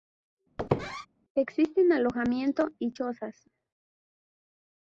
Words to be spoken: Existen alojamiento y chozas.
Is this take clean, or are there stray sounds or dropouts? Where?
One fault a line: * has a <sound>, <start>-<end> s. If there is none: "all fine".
* has a squeak, 0.6-1.1 s